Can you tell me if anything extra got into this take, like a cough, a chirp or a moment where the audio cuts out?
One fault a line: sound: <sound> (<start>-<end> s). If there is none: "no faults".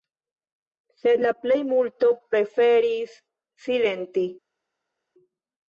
no faults